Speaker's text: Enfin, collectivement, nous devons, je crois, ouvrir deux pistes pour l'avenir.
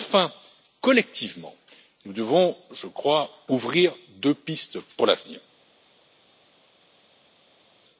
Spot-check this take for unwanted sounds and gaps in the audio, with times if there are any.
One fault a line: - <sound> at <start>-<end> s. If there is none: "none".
none